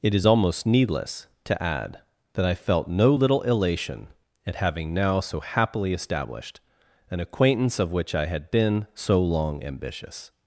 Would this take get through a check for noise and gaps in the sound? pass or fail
pass